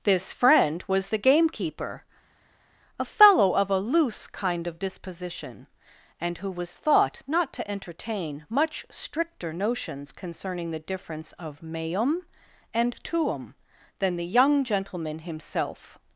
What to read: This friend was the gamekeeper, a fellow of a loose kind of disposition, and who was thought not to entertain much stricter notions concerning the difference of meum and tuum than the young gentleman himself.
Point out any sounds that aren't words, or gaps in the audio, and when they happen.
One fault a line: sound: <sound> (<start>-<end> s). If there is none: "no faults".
no faults